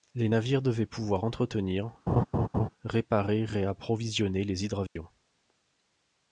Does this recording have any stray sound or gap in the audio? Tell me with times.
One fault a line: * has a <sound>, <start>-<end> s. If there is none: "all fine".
* has a laugh, 2.1-2.7 s
* has a dropout, 4.9-5.0 s